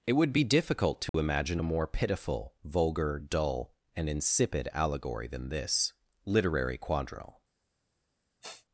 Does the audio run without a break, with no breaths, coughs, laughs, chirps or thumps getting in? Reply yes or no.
no